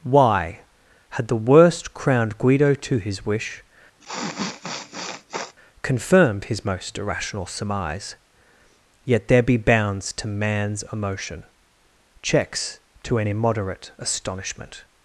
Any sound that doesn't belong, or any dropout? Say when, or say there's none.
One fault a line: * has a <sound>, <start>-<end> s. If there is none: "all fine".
* has a sniff, 4.0-5.5 s